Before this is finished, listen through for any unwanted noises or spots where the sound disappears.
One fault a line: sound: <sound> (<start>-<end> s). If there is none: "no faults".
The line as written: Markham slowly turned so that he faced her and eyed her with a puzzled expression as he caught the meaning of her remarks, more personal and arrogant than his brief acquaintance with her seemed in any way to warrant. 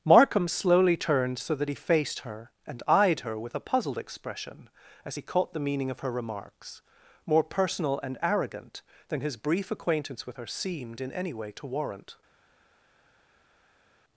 no faults